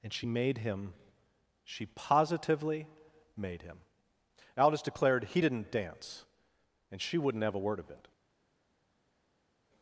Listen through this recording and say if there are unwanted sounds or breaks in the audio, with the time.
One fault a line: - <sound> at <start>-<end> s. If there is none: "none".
none